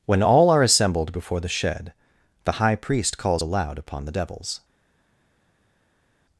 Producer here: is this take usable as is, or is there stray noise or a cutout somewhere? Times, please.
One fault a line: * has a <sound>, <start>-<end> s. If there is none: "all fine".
all fine